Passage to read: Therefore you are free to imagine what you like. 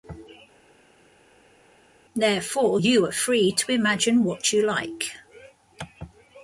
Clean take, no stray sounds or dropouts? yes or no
yes